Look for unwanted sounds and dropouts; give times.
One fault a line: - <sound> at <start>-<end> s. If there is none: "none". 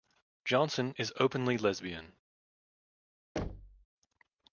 - thud at 3.4-3.9 s